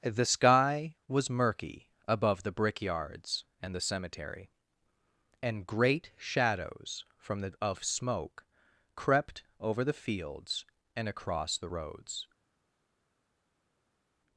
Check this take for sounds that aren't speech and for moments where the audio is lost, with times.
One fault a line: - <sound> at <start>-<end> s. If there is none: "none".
none